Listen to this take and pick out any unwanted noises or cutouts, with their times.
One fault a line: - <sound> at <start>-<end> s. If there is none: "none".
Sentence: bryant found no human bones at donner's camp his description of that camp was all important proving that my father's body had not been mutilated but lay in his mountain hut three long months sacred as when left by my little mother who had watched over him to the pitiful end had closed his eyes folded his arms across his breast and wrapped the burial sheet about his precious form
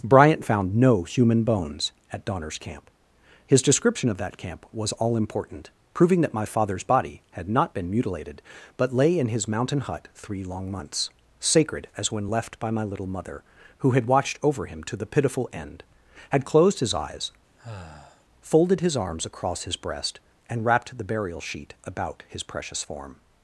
- sigh at 17.6-18.2 s